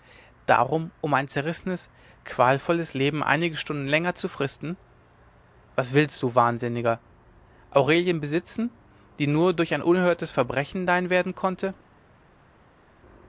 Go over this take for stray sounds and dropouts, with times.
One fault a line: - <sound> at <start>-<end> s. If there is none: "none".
none